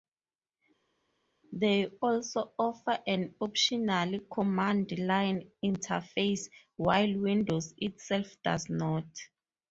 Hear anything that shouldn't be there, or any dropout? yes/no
no